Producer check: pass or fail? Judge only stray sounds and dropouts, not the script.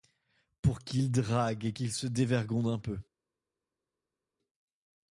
pass